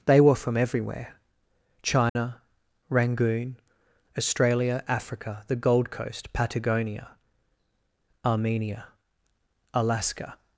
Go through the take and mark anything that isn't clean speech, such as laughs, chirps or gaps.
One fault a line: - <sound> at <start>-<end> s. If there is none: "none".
- dropout at 2.1-2.2 s